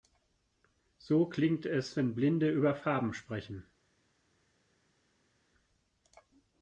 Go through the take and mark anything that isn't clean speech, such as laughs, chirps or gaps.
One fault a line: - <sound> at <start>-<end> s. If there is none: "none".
none